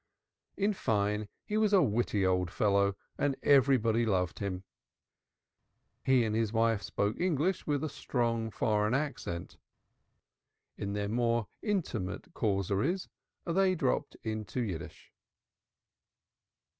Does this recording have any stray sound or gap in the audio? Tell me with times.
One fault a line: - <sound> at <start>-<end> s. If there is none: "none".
none